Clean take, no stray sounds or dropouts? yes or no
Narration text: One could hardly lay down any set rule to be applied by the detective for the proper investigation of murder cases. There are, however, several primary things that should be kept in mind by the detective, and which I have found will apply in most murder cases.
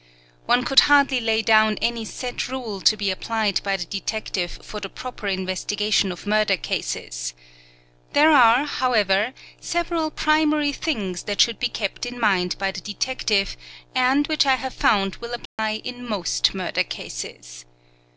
no